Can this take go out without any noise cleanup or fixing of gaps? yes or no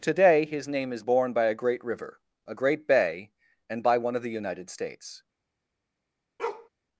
no